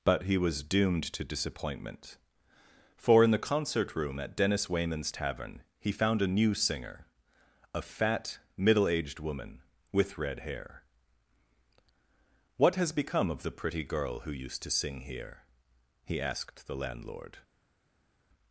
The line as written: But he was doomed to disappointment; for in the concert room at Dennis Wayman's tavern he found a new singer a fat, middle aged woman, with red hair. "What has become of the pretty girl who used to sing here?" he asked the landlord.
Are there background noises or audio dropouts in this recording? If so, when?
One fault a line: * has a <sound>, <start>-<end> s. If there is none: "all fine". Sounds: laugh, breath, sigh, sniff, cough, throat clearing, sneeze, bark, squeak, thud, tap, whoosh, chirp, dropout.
all fine